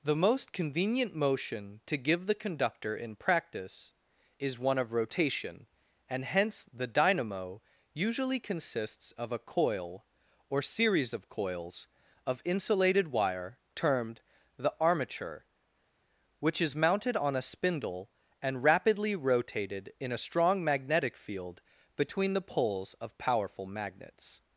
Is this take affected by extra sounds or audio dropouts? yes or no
no